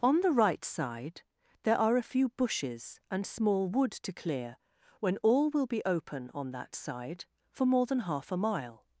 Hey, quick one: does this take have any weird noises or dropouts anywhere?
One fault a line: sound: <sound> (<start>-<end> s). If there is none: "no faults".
no faults